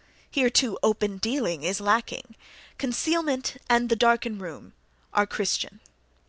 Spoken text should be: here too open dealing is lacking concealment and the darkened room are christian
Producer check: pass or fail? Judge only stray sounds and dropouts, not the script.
pass